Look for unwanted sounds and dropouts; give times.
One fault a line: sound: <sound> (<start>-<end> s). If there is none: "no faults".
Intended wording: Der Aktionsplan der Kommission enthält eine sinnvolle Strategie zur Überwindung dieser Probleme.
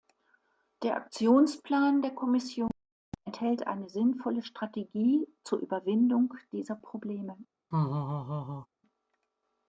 sound: laugh (7.7-8.7 s)